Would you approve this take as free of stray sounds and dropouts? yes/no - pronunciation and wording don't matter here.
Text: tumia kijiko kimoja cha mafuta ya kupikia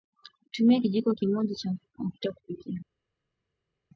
yes